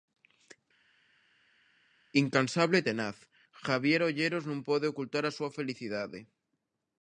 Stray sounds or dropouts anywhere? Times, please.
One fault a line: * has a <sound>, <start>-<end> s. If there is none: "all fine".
all fine